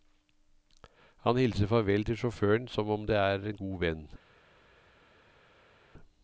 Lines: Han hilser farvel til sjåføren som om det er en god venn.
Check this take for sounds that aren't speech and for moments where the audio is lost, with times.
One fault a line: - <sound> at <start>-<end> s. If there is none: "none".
none